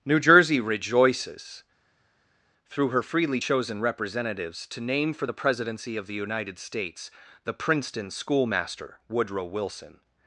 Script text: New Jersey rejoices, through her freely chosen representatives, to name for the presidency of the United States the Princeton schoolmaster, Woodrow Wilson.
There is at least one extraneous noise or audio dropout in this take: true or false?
false